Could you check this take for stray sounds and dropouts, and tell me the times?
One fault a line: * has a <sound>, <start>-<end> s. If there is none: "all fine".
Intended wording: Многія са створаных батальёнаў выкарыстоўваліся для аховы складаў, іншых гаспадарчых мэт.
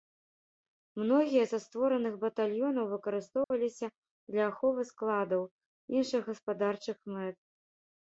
* has a dropout, 3.4-3.5 s